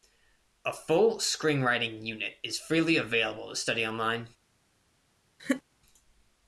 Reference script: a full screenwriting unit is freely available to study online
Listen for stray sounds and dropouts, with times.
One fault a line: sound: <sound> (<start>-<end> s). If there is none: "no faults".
sound: laugh (5.4-5.6 s)